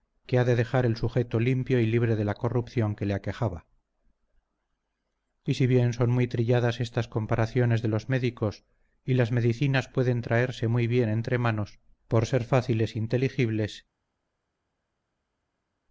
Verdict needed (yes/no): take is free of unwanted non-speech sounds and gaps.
yes